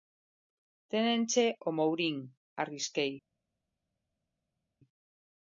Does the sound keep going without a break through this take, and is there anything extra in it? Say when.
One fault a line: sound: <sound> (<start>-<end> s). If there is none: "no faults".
no faults